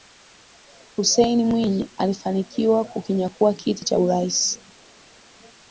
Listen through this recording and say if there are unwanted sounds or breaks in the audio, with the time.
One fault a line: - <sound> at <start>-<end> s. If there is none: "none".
none